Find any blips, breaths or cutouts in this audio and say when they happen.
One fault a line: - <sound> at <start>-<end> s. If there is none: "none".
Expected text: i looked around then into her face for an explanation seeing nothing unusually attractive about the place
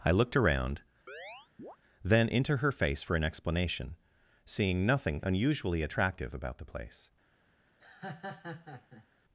- chirp at 1.1-1.8 s
- laugh at 7.8-9.1 s